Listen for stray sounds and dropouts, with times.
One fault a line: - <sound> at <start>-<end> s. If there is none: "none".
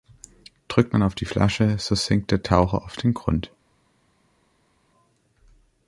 none